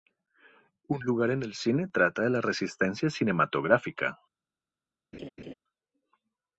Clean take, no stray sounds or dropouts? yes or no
no